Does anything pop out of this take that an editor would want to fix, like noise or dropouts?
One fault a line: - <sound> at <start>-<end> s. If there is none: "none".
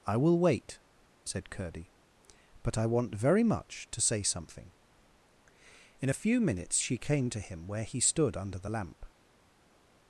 none